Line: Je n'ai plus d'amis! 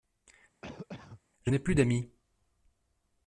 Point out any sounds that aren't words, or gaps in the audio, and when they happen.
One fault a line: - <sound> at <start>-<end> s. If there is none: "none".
- cough at 0.6-1.2 s